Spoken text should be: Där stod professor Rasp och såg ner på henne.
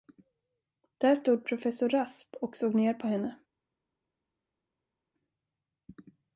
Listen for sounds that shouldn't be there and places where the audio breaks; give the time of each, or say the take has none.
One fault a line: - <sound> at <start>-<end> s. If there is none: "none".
none